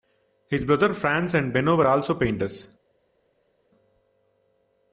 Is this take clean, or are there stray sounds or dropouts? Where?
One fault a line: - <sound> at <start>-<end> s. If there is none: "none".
none